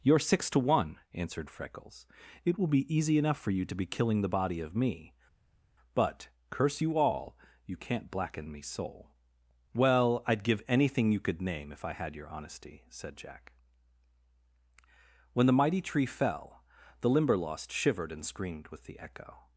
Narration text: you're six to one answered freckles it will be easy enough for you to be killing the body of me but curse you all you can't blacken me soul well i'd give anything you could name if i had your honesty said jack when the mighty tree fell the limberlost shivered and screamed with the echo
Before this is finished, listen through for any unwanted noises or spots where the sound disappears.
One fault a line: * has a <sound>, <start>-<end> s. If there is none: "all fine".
all fine